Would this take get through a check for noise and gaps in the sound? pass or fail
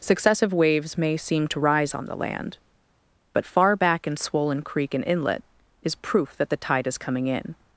pass